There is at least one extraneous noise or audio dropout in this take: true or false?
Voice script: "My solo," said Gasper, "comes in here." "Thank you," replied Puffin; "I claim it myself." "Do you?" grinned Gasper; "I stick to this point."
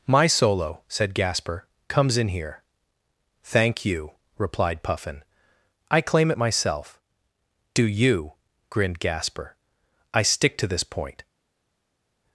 false